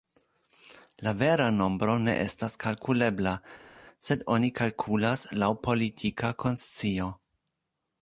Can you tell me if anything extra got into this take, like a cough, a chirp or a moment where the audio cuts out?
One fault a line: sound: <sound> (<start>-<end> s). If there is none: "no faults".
no faults